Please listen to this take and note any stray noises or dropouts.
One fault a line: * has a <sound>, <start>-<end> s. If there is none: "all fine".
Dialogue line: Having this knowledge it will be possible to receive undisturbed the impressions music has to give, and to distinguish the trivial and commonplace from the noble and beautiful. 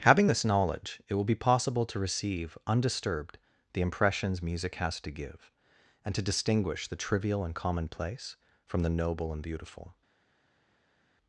all fine